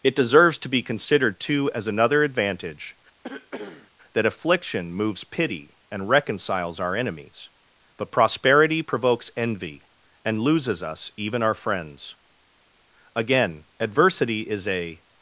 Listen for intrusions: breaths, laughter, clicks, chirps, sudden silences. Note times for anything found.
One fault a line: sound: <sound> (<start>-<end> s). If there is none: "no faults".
sound: cough (3.2-3.9 s)